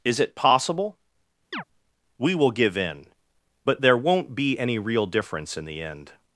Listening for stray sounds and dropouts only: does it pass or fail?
fail